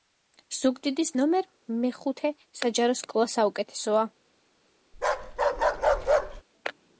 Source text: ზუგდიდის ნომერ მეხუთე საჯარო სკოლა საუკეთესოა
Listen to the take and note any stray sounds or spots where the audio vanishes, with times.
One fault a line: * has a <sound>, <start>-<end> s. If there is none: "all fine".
* has a bark, 4.9-6.4 s